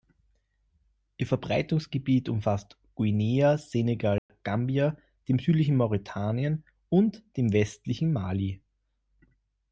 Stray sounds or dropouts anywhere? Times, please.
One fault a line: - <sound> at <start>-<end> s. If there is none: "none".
- dropout at 4.2-4.3 s